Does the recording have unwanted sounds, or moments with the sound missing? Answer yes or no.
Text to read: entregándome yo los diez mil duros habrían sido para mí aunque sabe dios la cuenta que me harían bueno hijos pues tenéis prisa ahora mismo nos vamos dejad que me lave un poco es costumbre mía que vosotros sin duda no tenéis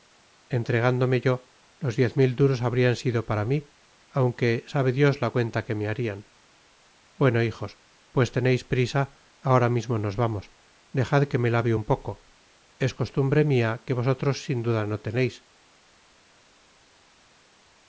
no